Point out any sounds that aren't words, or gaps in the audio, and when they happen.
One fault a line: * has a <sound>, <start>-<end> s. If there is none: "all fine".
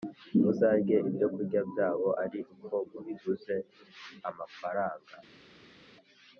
all fine